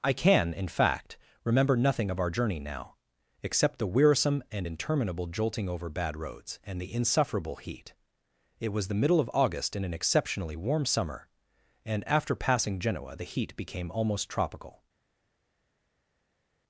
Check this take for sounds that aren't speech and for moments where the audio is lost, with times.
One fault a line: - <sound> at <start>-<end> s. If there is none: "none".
none